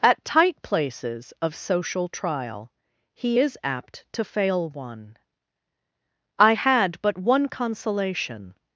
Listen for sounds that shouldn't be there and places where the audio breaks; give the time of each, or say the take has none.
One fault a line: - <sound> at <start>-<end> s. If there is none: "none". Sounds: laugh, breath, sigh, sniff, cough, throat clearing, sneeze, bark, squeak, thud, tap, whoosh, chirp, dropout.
none